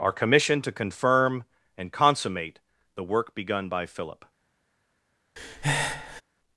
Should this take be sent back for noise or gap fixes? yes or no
yes